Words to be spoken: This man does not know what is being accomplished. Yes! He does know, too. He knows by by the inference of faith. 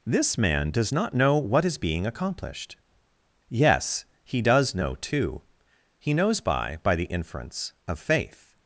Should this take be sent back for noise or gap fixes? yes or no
no